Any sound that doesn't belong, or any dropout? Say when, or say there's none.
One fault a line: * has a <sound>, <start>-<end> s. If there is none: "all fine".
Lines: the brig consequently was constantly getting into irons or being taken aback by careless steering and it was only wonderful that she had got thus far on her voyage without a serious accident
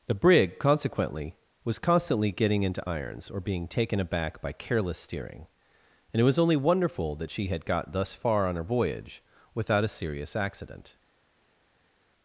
all fine